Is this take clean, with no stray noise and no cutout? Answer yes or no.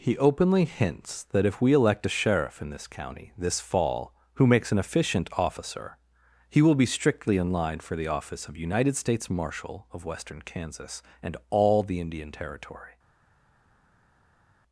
yes